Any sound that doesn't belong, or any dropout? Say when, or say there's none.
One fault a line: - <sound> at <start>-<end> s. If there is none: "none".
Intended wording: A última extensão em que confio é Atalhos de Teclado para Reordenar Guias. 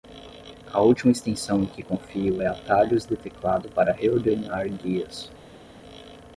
none